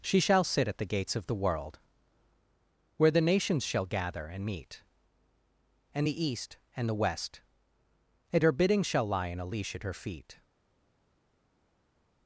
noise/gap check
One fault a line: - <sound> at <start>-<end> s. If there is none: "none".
none